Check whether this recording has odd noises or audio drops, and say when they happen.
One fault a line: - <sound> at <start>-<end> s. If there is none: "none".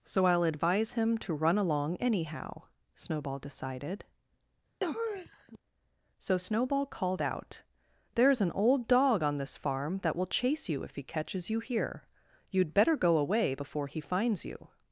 - sniff at 4.8-5.6 s